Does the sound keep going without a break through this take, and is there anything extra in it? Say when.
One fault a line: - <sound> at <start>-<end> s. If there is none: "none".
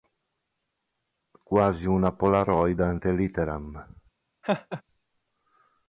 - laugh at 4.4-4.8 s